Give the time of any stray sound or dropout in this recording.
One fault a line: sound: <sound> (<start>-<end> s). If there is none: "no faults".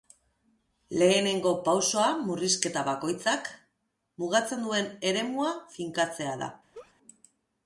sound: laugh (6.7-6.9 s)